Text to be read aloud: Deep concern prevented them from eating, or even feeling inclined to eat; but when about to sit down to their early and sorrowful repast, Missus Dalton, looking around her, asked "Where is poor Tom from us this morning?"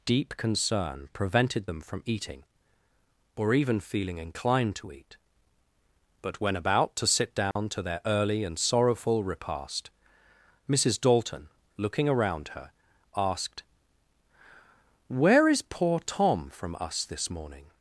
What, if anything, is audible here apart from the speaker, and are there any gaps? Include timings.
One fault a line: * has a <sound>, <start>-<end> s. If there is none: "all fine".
* has a dropout, 7.5-7.6 s